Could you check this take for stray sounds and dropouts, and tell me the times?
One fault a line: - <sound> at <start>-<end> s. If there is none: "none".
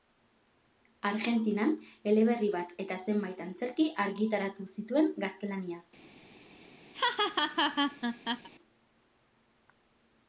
- laugh at 6.9-8.5 s